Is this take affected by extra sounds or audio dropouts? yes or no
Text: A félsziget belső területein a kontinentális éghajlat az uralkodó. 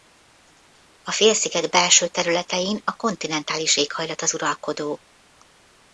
no